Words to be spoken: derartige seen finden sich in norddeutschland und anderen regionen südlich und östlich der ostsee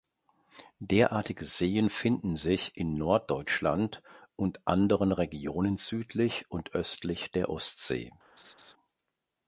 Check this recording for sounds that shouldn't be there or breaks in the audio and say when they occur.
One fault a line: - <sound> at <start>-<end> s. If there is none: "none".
- laugh at 8.4-8.7 s